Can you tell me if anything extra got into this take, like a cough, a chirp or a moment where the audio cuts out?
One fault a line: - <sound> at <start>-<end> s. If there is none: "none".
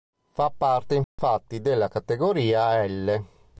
- dropout at 1.0-1.2 s